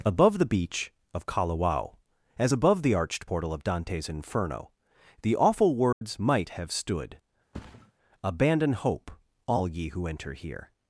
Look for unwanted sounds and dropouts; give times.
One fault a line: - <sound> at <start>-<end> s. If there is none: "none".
- dropout at 5.9-6.0 s
- thud at 7.5-7.9 s